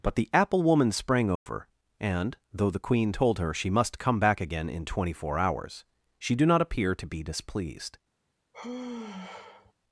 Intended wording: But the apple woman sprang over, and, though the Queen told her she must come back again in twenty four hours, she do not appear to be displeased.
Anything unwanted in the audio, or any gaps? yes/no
yes